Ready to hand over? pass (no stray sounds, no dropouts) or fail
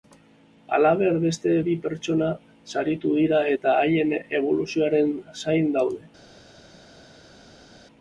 pass